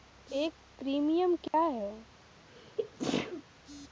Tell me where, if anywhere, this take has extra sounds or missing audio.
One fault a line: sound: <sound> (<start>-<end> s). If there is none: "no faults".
sound: dropout (1.5-1.5 s)
sound: sneeze (2.5-3.4 s)